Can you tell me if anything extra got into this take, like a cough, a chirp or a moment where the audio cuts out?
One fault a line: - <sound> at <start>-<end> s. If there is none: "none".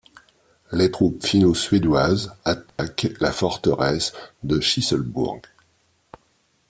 - dropout at 2.7-2.8 s